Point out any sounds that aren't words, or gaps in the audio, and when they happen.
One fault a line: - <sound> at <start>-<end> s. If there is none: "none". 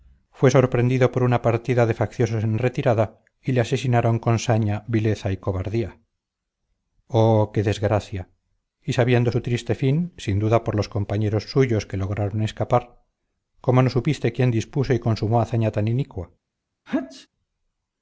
- sneeze at 16.9-17.3 s